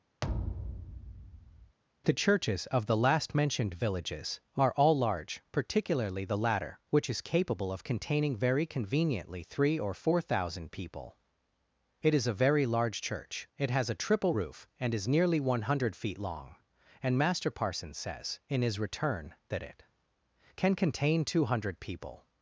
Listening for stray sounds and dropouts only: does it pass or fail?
fail